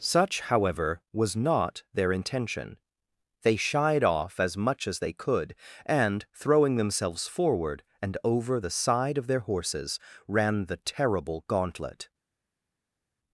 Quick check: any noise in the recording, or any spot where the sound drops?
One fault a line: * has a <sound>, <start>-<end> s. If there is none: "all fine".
all fine